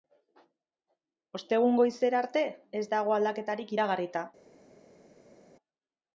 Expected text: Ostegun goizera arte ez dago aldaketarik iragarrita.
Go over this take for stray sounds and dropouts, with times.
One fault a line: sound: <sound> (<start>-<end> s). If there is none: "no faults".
no faults